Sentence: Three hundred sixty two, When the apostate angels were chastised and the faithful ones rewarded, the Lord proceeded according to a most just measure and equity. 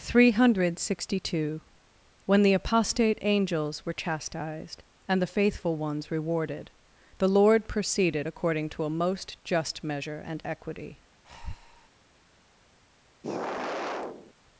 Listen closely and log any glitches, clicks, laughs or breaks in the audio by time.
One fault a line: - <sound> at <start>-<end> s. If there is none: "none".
- breath at 11.2-11.9 s
- sigh at 13.2-14.3 s